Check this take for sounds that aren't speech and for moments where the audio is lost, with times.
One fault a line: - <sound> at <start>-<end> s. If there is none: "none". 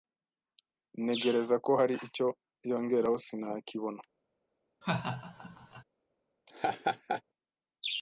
- laugh at 4.8-5.8 s
- laugh at 6.5-7.2 s